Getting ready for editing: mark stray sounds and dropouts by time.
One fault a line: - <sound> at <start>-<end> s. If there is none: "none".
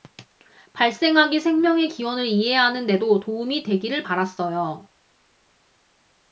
none